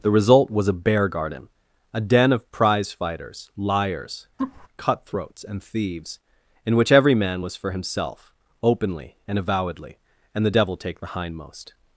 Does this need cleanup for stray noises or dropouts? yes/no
yes